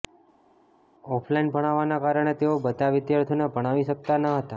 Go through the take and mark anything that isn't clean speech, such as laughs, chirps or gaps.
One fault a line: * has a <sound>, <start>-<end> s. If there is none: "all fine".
all fine